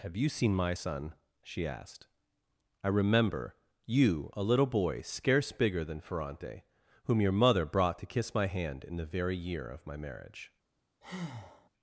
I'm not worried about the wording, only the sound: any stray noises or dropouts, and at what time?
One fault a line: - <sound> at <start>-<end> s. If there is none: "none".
- breath at 11.0-11.7 s